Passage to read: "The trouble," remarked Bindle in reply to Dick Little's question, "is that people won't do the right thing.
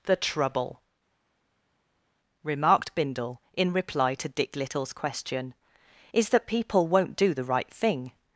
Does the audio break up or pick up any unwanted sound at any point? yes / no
no